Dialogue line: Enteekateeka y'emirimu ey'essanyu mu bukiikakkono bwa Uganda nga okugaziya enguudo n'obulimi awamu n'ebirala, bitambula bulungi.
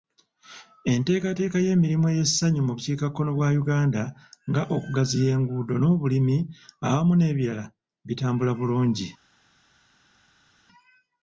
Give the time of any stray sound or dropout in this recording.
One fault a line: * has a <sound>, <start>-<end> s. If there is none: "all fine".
all fine